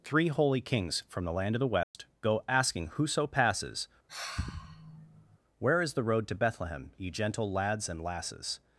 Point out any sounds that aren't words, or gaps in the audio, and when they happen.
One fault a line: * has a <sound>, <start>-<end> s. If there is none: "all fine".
* has a dropout, 1.8-1.9 s
* has a sigh, 4.1-5.4 s